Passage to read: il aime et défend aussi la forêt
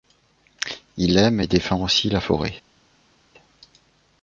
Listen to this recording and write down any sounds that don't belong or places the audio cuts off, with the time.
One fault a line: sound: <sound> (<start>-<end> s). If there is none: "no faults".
no faults